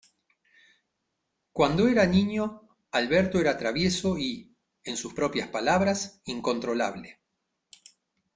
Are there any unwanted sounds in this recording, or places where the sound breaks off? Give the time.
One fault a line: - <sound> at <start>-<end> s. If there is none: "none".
none